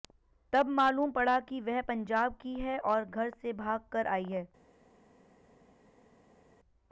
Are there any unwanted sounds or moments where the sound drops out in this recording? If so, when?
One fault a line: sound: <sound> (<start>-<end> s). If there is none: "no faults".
no faults